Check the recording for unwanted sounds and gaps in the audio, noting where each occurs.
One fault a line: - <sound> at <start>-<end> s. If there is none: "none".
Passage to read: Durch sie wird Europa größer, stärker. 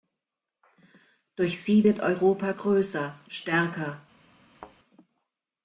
- thud at 4.5-4.8 s